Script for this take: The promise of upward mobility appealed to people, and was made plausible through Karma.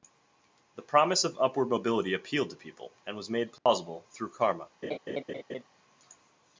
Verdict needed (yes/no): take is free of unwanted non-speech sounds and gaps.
no